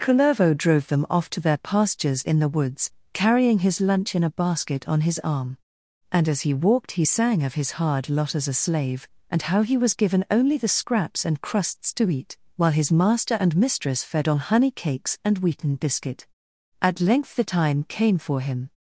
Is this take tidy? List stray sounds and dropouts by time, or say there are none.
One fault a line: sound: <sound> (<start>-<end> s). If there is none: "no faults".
no faults